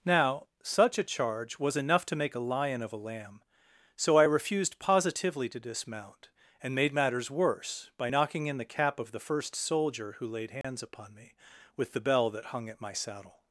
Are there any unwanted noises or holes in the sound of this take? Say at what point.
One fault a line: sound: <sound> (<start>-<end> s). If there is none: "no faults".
sound: dropout (10.6-10.6 s)